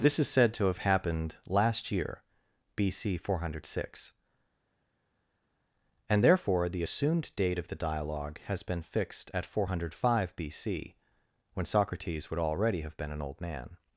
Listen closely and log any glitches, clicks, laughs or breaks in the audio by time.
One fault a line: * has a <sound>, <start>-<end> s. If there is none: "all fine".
all fine